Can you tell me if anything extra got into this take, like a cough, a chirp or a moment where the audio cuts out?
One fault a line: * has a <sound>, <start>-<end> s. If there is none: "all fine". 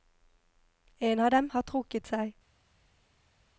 all fine